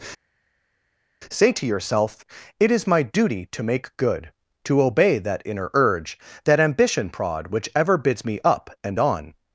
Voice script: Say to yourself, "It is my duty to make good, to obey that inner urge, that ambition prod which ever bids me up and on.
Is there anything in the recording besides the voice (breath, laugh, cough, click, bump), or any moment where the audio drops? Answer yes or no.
no